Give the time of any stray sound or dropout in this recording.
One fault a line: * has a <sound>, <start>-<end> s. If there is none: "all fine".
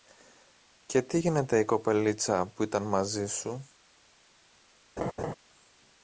* has a laugh, 5.0-5.3 s